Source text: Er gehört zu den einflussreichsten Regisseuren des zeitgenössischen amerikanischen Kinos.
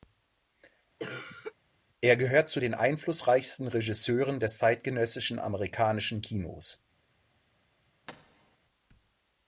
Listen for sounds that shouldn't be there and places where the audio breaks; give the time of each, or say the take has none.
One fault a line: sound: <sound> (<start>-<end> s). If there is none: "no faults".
sound: cough (1.0-1.5 s)
sound: thud (8.1-8.6 s)